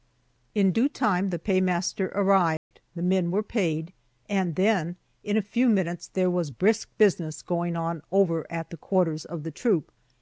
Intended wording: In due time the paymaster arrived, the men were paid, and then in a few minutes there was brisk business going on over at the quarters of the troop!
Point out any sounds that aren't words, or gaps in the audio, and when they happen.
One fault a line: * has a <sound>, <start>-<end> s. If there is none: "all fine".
* has a dropout, 2.6-2.7 s